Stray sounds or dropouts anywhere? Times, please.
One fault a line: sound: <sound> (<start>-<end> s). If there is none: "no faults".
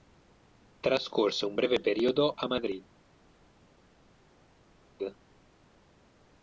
no faults